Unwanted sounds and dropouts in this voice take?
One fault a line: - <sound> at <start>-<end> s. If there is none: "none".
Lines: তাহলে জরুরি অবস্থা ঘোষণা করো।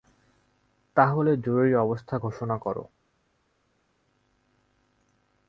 none